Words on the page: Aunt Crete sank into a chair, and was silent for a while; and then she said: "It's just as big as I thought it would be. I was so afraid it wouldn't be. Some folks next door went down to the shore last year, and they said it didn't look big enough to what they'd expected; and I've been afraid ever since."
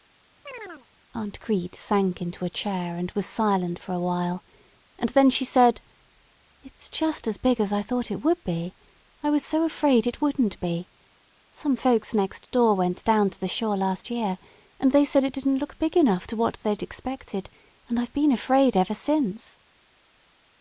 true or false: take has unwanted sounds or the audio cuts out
true